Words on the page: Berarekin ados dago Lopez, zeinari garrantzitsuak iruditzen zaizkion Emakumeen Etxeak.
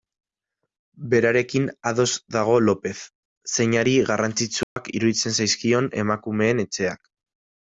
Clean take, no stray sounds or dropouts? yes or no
no